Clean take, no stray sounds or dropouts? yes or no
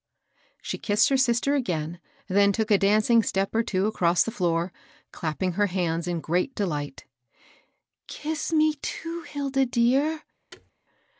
no